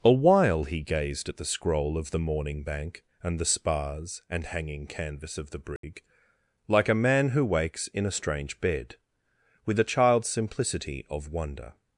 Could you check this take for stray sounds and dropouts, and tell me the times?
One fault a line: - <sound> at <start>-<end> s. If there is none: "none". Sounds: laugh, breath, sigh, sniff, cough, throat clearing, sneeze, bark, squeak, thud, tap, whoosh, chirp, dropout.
- dropout at 5.8-5.8 s